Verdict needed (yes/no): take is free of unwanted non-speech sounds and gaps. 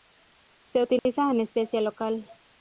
no